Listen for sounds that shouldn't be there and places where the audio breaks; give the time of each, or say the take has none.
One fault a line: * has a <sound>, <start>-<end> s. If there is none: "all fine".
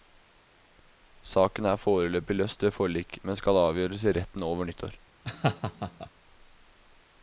* has a laugh, 5.2-6.1 s